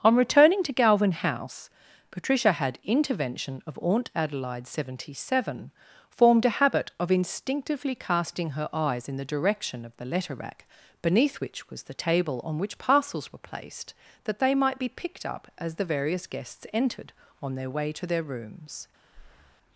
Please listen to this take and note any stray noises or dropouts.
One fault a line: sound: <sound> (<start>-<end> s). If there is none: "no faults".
sound: breath (19.1-19.6 s)